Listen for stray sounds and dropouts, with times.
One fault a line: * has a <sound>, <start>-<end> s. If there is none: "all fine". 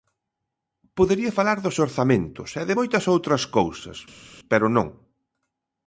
all fine